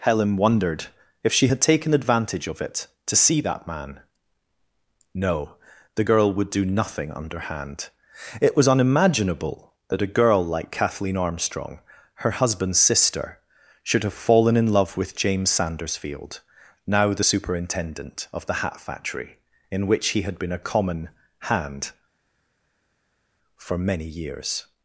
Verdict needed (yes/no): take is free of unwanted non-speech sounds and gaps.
yes